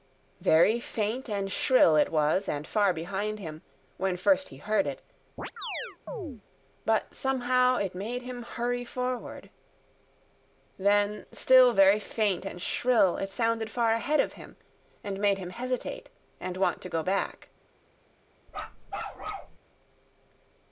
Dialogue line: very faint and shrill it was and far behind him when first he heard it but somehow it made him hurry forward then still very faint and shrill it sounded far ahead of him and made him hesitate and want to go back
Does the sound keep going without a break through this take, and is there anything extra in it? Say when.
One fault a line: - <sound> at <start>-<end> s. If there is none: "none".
- chirp at 5.4-6.4 s
- bark at 18.5-19.6 s